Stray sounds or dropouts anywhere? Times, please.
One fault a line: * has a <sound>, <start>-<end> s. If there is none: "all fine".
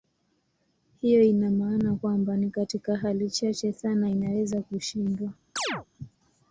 * has a chirp, 5.6-5.9 s